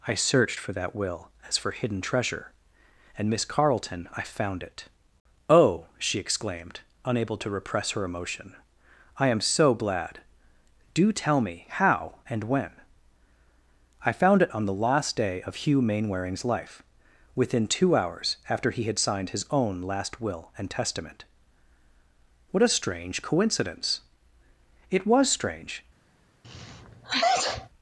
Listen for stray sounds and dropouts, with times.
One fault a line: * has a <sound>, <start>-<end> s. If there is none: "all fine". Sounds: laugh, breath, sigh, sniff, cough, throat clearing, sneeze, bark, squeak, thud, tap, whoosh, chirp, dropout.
* has a sneeze, 26.4-27.7 s